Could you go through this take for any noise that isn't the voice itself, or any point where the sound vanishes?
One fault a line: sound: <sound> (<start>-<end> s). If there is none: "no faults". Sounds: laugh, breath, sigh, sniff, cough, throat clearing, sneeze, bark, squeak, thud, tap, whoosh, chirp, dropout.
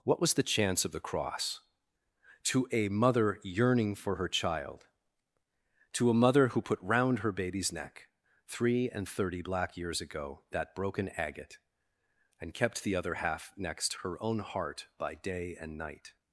no faults